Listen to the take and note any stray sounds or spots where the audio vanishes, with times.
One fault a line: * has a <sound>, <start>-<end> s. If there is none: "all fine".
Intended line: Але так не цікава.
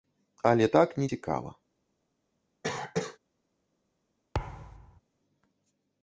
* has a cough, 2.6-3.2 s
* has a thud, 4.3-5.0 s